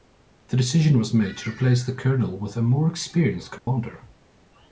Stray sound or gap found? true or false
true